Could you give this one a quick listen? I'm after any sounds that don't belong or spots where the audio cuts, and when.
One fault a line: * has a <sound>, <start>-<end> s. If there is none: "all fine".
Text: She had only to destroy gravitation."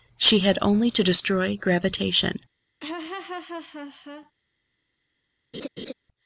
* has a laugh, 2.8-4.3 s
* has a laugh, 5.5-5.9 s